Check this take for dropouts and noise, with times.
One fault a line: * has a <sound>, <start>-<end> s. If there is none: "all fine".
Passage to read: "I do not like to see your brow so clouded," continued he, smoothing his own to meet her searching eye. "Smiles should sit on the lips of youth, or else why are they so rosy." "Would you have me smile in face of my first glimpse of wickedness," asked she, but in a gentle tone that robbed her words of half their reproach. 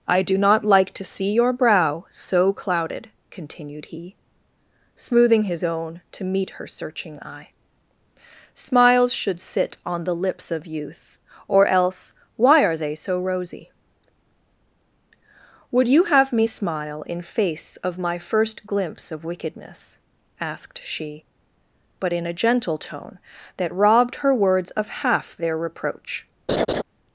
* has a laugh, 26.5-26.8 s